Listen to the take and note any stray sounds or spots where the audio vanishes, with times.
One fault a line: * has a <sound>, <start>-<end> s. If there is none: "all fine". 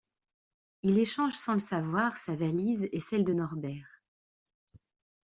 all fine